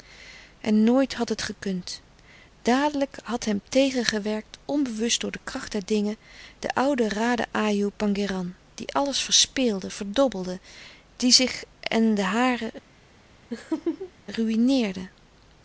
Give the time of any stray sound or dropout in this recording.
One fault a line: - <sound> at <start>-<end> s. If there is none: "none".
- laugh at 13.5-14.1 s